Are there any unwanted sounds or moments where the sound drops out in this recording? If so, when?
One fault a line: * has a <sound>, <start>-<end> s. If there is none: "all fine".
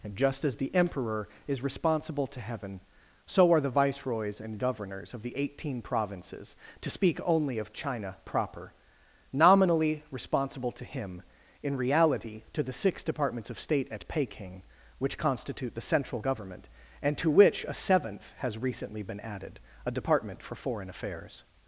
all fine